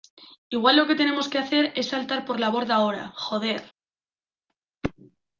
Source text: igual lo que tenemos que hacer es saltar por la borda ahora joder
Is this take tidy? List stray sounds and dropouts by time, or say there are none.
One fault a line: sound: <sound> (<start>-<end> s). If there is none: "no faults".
no faults